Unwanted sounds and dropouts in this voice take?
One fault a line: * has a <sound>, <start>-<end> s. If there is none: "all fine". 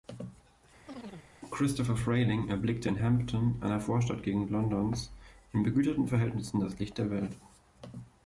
* has a chirp, 0.9-1.3 s